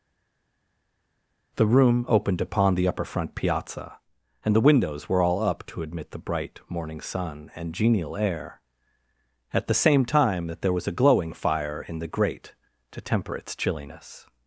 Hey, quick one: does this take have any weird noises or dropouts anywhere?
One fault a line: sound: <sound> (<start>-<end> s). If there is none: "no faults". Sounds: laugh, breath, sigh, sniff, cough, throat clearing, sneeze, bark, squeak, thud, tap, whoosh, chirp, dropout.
no faults